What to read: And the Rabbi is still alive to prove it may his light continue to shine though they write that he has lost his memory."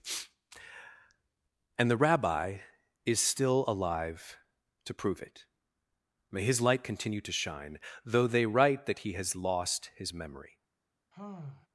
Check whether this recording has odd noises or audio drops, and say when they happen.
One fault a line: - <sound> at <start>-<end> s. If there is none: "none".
- sigh at 11.1-11.7 s